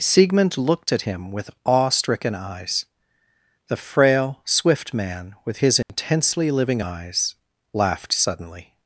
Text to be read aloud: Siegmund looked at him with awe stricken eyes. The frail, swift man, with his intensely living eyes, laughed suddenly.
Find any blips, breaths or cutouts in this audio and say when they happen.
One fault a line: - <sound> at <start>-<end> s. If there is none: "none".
- dropout at 5.8-5.9 s